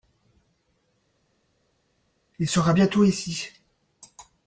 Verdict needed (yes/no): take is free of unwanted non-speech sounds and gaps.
yes